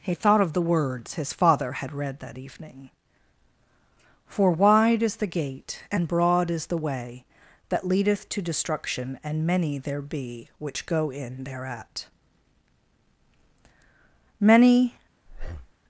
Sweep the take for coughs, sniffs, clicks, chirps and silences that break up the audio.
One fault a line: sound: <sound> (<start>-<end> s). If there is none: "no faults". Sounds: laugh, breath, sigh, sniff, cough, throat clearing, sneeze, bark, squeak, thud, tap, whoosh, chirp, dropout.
sound: breath (15.3-15.7 s)